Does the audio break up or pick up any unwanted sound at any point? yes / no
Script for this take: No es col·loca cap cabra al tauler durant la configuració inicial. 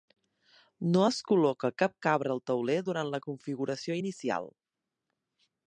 no